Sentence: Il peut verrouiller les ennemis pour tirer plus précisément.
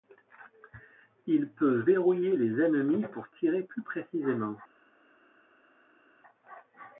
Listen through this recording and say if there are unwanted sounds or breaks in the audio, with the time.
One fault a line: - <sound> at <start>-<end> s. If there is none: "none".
none